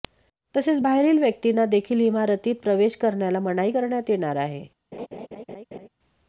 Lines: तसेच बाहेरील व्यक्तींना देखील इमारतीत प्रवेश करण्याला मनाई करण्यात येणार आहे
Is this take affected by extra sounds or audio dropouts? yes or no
yes